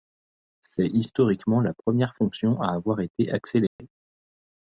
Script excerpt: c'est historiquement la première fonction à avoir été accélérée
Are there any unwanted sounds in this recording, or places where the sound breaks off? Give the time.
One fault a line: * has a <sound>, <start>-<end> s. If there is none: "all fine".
* has a dropout, 3.7-3.8 s